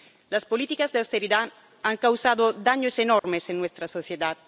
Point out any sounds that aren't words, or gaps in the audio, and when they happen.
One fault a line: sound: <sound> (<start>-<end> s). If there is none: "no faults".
sound: dropout (3.2-3.2 s)